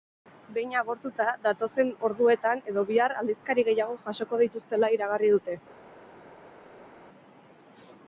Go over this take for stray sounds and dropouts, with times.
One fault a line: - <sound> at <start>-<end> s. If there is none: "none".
none